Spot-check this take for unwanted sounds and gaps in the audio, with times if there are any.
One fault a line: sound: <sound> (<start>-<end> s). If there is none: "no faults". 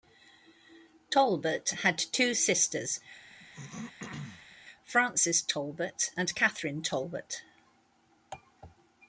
sound: throat clearing (3.3-4.6 s)